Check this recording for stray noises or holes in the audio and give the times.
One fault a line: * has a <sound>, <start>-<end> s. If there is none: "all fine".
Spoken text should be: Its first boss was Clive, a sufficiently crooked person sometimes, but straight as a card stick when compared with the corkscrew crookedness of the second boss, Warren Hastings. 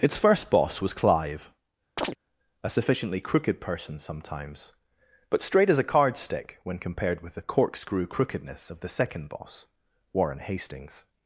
* has a chirp, 2.0-2.2 s